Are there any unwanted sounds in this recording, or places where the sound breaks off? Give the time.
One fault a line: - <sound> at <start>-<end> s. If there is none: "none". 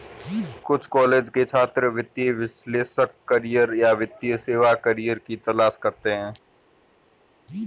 none